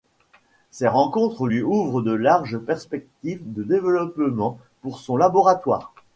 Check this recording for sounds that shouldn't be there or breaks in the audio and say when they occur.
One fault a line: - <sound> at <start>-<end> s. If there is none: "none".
none